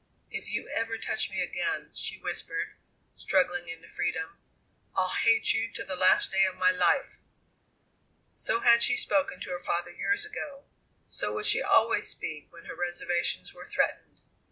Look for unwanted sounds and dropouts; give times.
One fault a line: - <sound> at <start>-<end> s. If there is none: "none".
none